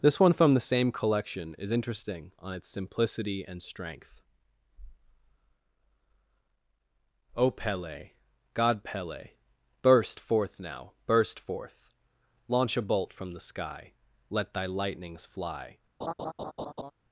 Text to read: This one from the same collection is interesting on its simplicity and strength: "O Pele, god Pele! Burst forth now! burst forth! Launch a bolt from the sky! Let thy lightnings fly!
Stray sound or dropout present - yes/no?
yes